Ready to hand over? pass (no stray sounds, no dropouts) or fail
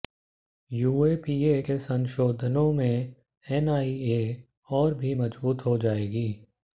pass